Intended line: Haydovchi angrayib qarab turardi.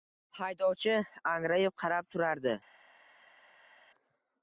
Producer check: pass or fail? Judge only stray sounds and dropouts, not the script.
pass